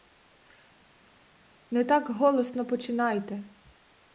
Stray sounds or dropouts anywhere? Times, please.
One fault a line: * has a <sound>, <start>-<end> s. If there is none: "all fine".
all fine